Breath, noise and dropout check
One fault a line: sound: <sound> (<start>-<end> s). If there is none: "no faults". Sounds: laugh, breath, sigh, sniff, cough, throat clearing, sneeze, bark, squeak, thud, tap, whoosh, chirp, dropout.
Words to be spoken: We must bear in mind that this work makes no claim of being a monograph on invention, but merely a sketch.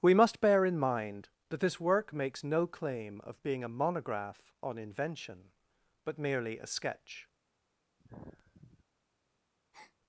sound: sigh (8.0-8.8 s)
sound: breath (9.7-10.0 s)